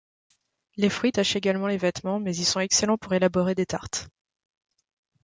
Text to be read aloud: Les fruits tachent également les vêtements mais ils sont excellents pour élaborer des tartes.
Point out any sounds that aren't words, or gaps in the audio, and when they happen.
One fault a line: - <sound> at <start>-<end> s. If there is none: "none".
none